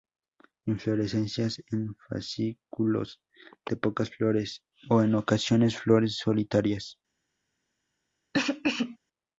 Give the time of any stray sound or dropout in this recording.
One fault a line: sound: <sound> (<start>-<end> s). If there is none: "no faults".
sound: cough (8.3-9.0 s)